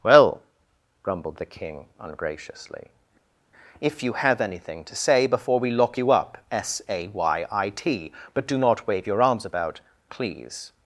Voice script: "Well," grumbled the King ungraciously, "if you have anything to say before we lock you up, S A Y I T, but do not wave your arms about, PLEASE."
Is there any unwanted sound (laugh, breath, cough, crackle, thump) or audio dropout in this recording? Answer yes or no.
no